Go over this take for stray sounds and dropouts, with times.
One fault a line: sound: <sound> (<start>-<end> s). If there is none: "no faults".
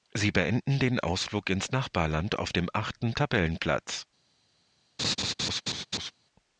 sound: laugh (5.0-6.1 s)